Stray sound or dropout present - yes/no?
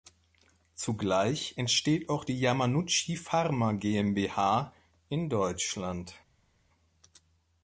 no